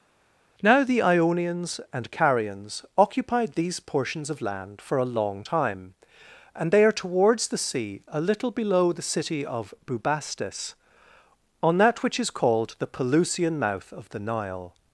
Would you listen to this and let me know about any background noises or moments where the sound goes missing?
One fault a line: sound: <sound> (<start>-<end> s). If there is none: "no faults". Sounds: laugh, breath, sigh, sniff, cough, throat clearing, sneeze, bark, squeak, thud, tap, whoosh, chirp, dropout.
no faults